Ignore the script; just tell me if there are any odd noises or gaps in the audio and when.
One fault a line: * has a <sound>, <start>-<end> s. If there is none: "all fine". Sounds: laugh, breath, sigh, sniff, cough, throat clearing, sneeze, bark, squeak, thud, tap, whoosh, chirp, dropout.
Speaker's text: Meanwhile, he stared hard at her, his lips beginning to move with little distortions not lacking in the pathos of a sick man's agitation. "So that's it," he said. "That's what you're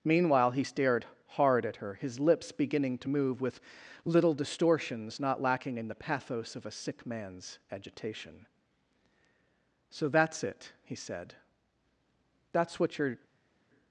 all fine